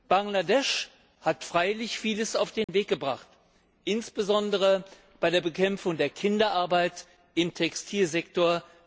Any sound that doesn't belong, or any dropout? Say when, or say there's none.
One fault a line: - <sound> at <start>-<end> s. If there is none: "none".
- dropout at 2.6-2.7 s